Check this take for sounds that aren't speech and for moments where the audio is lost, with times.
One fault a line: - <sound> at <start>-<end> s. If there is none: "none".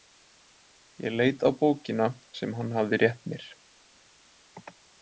none